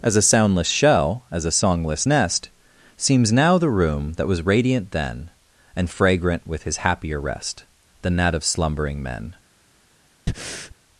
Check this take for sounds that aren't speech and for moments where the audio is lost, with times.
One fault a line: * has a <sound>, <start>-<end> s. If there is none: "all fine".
* has a breath, 10.3-10.8 s